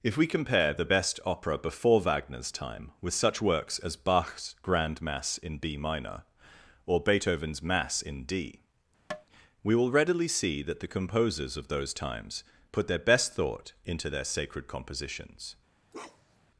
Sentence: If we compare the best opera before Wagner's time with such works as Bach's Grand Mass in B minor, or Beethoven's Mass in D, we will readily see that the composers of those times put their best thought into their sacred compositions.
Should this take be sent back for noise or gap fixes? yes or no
yes